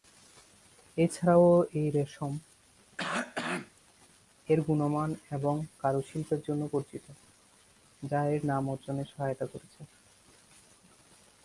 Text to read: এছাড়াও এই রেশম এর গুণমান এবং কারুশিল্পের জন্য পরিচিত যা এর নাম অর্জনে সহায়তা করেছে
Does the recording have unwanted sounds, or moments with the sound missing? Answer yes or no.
yes